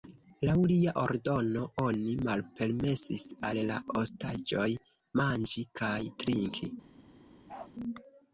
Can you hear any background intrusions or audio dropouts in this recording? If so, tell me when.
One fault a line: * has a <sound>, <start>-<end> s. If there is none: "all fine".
* has a bark, 7.5-7.7 s